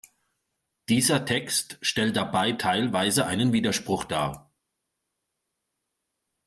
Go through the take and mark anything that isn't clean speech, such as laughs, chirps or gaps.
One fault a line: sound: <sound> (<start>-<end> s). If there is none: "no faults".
no faults